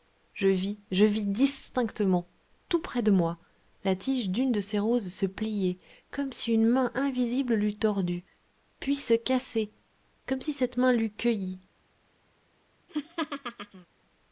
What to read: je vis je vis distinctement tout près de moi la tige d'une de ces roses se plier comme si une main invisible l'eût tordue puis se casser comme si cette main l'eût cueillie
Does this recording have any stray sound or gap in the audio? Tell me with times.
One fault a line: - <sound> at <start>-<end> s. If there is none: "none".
- laugh at 12.9-13.9 s